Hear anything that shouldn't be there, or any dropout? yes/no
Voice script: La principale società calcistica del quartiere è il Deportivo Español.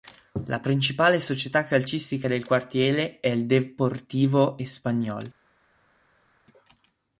no